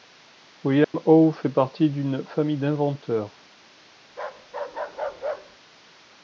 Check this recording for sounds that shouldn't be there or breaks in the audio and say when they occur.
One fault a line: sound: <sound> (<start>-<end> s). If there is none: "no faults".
sound: dropout (0.8-0.9 s)
sound: bark (4.1-5.6 s)